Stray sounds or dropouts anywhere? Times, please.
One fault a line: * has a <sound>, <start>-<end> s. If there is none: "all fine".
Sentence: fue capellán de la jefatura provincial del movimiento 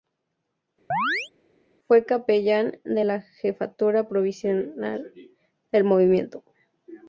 * has a chirp, 0.9-1.3 s